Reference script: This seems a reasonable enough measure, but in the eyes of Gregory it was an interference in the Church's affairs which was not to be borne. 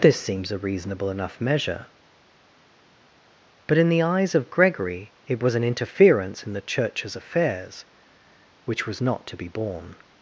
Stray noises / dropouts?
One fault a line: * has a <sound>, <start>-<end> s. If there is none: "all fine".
all fine